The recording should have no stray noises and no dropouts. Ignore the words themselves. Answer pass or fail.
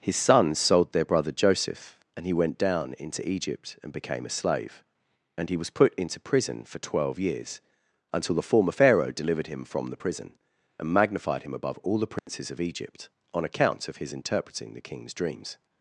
fail